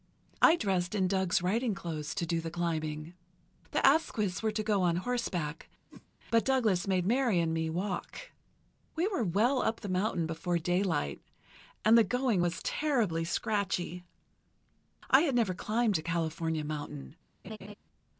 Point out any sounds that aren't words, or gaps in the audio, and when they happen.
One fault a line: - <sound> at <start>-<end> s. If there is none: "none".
- whoosh at 5.9-6.1 s
- laugh at 17.4-17.7 s